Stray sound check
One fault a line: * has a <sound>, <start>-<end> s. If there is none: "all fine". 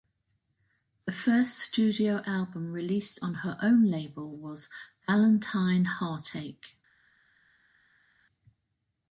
all fine